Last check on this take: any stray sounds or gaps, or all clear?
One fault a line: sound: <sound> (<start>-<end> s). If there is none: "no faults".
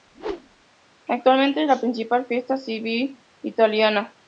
sound: whoosh (0.1-0.6 s)